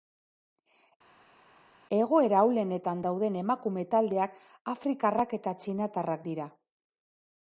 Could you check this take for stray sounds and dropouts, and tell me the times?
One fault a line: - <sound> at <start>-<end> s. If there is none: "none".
none